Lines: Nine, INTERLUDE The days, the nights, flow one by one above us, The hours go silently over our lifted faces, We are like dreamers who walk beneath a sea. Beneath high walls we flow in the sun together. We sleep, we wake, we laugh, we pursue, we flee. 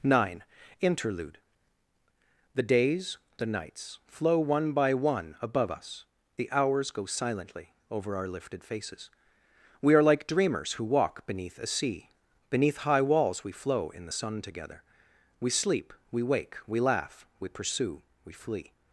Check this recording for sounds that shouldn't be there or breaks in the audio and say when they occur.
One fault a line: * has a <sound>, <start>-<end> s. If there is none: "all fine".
all fine